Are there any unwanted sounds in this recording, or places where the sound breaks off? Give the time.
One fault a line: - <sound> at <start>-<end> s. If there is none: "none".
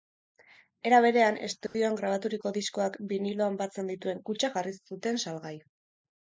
- dropout at 1.7-1.7 s